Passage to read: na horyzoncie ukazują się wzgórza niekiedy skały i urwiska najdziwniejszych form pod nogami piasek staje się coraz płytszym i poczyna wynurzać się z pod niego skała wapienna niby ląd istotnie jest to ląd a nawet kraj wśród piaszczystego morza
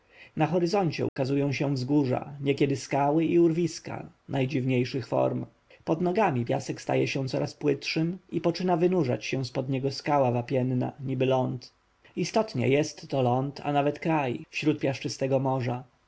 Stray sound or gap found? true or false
true